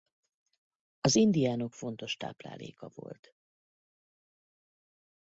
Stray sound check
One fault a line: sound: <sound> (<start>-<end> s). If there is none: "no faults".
no faults